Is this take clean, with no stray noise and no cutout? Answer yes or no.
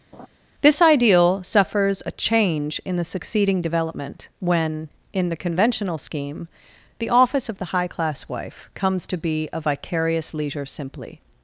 no